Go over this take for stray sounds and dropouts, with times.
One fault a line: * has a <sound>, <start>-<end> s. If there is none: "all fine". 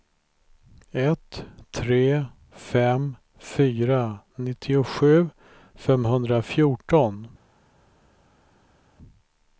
all fine